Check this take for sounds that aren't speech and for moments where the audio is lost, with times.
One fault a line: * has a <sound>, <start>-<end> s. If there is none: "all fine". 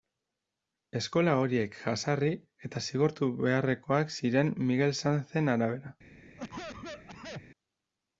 * has a cough, 6.4-7.4 s